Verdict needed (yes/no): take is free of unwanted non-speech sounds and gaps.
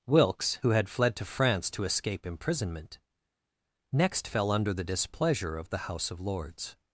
yes